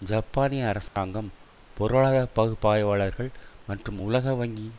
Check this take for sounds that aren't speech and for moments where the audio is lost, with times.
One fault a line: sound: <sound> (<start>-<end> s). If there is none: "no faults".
sound: dropout (0.9-1.0 s)